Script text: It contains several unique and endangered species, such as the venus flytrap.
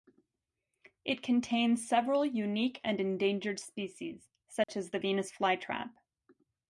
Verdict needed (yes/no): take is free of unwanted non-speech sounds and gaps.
no